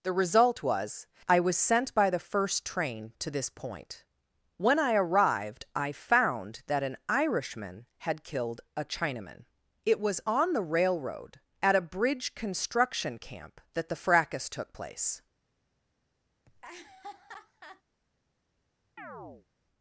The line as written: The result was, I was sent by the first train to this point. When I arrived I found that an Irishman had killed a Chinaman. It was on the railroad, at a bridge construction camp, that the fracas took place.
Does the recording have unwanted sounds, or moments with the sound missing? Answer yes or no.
yes